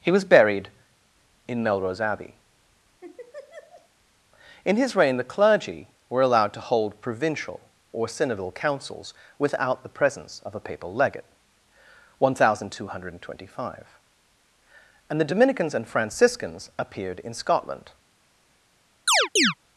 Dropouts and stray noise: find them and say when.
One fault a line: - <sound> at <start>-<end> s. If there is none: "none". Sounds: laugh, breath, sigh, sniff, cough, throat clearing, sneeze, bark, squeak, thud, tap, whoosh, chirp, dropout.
- laugh at 3.0-3.9 s
- chirp at 19.1-19.5 s